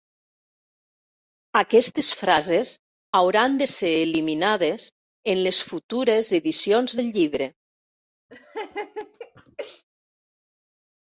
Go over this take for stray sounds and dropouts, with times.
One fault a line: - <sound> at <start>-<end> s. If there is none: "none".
- laugh at 8.3-9.8 s